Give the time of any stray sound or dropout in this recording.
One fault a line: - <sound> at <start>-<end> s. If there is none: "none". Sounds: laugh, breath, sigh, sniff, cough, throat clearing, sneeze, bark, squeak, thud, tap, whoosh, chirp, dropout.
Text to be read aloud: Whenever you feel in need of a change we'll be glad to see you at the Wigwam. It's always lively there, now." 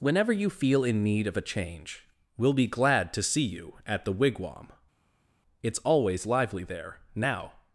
none